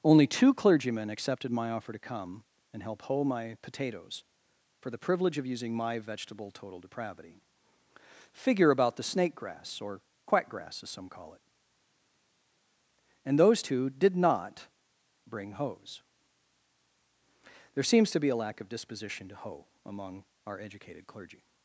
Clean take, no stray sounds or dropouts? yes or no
yes